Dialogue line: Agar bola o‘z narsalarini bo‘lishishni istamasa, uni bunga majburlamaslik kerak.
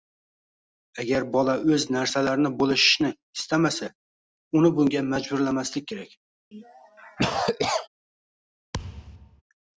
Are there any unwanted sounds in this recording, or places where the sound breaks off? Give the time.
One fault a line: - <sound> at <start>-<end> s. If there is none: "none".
- cough at 6.5-7.9 s
- thud at 8.7-9.4 s